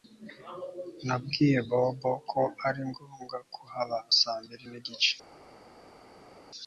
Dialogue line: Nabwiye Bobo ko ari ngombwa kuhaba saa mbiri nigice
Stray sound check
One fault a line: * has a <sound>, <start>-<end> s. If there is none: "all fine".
all fine